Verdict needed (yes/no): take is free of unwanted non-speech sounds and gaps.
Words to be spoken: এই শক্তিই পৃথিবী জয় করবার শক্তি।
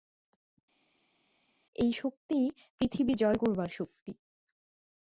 yes